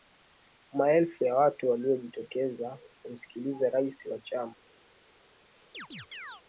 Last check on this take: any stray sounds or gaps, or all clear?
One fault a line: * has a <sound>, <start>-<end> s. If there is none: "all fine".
* has a chirp, 5.7-6.4 s